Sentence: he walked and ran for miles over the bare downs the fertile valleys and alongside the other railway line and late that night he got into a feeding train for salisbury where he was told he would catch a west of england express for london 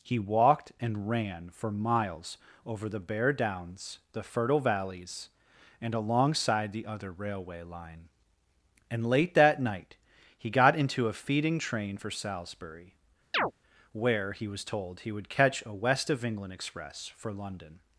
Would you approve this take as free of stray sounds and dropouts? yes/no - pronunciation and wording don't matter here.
no